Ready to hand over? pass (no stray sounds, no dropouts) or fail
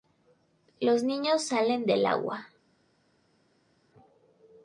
pass